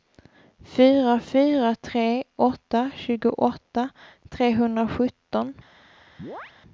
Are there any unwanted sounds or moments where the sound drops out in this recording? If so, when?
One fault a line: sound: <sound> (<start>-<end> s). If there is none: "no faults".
sound: chirp (6.2-6.5 s)